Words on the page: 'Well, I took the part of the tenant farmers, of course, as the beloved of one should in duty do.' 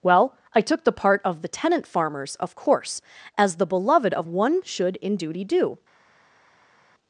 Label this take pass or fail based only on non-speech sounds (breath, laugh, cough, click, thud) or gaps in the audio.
pass